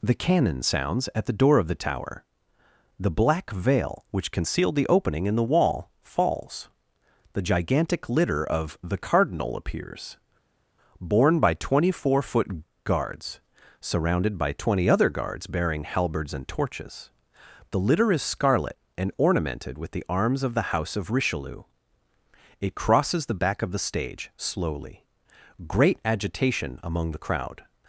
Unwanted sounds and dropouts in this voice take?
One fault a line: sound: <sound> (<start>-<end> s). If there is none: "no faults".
no faults